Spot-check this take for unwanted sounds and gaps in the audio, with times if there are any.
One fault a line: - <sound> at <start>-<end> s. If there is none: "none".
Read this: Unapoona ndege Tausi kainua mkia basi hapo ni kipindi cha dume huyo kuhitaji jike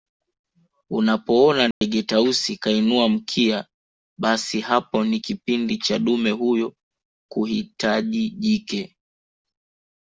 - dropout at 1.7-1.8 s